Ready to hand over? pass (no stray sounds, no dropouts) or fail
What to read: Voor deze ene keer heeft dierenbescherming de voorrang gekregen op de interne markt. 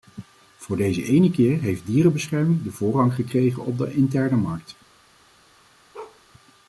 fail